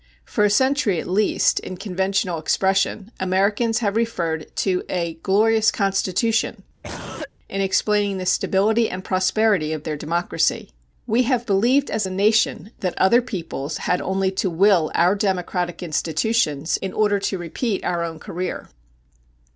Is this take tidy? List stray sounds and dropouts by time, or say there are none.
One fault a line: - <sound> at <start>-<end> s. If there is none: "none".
- cough at 6.8-7.3 s